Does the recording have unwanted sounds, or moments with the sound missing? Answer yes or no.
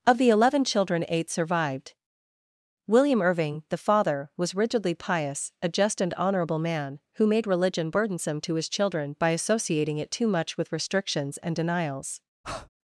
yes